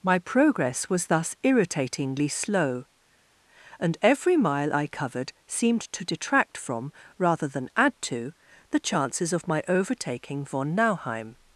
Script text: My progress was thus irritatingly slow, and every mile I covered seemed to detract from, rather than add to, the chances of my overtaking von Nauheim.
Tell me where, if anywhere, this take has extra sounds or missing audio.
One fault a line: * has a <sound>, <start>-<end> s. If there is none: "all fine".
all fine